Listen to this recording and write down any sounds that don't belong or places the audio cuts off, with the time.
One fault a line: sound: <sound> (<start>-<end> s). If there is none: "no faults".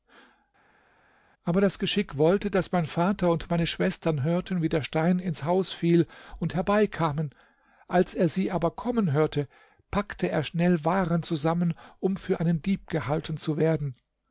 no faults